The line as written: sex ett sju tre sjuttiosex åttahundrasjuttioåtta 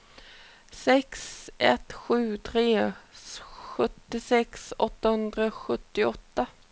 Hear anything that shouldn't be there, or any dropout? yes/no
no